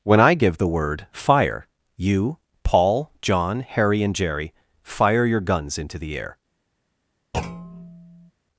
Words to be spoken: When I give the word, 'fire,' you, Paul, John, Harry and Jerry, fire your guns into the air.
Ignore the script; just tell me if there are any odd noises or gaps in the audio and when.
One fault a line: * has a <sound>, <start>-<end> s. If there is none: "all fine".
* has a thud, 7.3-8.3 s